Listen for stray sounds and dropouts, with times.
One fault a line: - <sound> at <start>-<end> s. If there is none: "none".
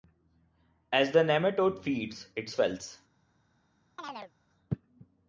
- chirp at 4.0-4.3 s